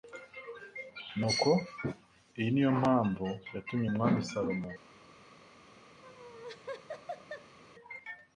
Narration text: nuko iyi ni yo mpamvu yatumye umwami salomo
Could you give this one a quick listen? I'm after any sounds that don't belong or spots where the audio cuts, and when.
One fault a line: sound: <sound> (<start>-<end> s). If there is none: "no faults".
sound: laugh (6.0-7.6 s)